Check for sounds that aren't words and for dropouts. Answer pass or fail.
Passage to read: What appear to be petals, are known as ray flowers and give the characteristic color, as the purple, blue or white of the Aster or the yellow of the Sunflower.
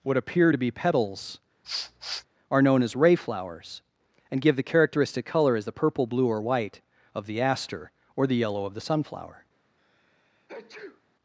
fail